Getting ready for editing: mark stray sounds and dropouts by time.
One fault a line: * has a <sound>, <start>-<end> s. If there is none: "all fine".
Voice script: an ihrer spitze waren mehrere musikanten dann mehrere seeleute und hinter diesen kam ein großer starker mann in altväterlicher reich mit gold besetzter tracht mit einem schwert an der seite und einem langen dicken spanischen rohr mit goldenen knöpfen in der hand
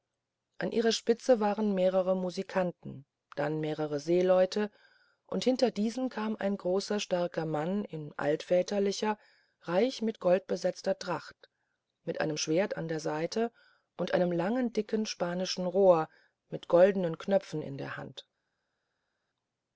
all fine